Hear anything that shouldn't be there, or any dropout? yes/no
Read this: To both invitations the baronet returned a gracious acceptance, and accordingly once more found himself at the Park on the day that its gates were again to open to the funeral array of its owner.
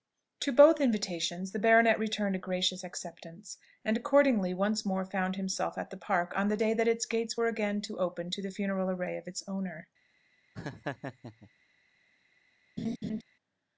yes